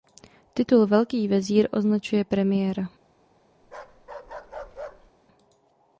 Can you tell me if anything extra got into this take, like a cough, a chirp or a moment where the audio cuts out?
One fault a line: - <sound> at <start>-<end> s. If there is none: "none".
- bark at 3.6-5.1 s